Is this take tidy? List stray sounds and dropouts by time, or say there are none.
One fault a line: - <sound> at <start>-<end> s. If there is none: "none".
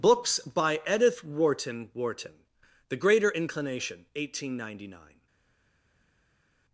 none